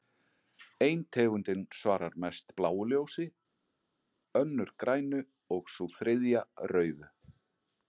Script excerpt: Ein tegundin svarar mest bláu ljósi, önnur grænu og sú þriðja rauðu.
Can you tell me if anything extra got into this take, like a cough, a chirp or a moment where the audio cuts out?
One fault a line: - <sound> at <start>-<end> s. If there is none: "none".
none